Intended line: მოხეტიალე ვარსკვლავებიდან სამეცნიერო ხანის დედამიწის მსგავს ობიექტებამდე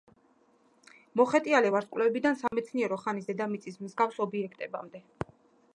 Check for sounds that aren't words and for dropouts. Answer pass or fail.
fail